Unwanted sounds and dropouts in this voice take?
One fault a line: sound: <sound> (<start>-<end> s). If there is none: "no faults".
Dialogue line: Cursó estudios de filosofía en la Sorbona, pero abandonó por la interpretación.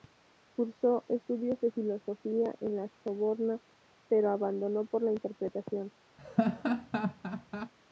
sound: laugh (6.2-7.7 s)